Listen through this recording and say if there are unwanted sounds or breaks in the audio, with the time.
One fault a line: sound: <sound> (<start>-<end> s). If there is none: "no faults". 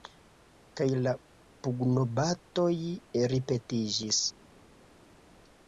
no faults